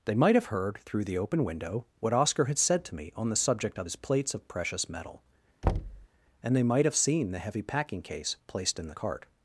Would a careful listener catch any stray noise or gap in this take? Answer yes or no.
yes